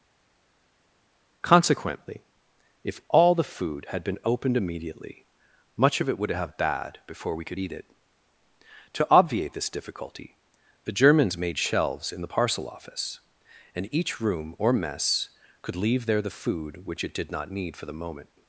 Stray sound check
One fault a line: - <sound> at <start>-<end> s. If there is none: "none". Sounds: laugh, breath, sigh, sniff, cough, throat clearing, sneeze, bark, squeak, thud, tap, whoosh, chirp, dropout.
none